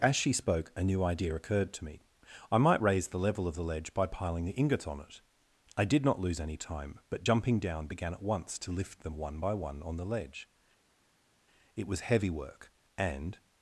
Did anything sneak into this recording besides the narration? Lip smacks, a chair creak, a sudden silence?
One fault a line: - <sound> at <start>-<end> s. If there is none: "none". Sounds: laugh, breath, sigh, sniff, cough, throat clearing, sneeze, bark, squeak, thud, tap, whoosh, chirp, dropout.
none